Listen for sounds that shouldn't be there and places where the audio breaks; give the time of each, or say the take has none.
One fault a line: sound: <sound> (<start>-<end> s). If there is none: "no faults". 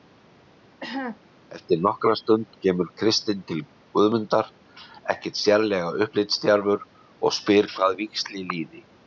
sound: cough (0.8-1.2 s)